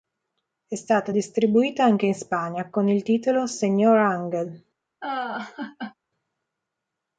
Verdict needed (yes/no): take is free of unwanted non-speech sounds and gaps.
no